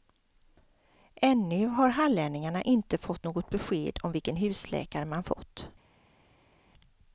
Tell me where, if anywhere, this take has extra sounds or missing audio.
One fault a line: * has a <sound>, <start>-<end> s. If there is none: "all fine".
all fine